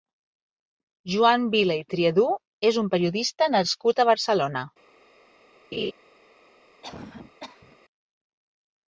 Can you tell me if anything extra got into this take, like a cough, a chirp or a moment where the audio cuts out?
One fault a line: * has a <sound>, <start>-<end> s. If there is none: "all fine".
* has a laugh, 5.7-5.9 s
* has a cough, 6.8-7.8 s